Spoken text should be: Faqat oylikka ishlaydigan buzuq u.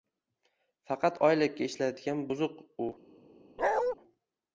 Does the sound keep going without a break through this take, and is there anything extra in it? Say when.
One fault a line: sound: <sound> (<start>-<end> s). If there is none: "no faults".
sound: bark (3.6-4.0 s)